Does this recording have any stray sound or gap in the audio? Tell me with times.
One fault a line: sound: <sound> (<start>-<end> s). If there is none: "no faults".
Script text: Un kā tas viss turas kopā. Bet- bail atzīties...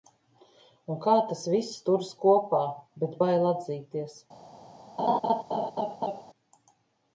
sound: laugh (5.0-6.2 s)